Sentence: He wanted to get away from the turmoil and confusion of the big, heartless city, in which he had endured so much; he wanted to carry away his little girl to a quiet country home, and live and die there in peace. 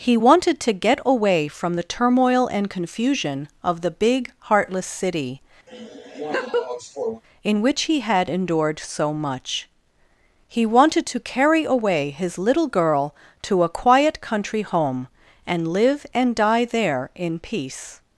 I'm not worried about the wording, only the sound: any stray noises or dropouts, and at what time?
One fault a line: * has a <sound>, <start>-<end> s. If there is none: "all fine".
* has a laugh, 5.7-7.2 s